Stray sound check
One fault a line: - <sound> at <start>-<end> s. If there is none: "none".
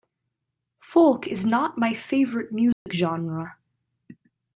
- dropout at 2.7-2.9 s